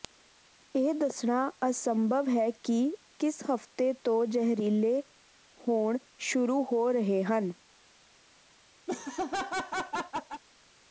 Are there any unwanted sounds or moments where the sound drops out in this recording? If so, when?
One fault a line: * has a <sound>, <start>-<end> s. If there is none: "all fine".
* has a laugh, 8.9-10.4 s